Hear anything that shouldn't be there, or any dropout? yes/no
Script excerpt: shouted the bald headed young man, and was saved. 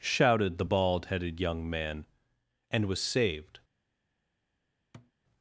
yes